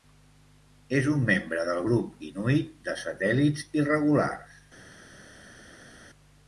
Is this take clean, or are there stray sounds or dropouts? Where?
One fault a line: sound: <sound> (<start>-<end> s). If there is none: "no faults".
no faults